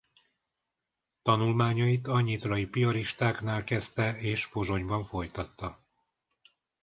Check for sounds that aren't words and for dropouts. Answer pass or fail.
pass